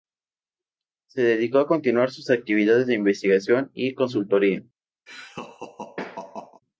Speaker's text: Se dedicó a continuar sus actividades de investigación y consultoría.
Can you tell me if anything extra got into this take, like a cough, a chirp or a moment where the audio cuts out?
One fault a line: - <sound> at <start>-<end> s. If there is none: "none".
- laugh at 5.1-6.6 s